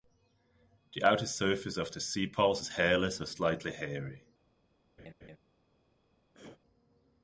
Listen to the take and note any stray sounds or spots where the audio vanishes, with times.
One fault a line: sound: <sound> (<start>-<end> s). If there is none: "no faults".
sound: laugh (5.0-5.4 s)
sound: throat clearing (6.3-6.6 s)